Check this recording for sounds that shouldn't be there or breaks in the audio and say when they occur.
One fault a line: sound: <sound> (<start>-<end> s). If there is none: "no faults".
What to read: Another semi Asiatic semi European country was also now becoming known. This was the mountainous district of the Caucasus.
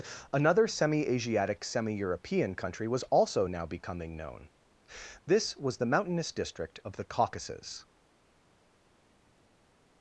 no faults